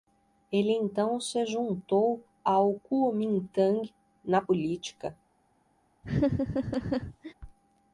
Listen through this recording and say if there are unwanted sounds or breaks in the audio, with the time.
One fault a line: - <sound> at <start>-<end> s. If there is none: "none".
- laugh at 6.0-7.3 s